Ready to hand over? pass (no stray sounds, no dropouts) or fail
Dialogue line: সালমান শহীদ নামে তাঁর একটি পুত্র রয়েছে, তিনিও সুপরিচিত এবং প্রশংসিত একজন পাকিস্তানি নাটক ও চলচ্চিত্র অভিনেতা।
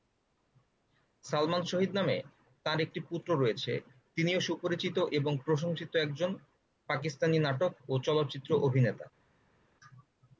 pass